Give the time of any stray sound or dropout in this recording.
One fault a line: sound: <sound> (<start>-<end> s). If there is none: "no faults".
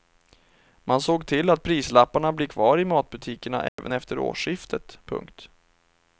sound: dropout (3.7-3.8 s)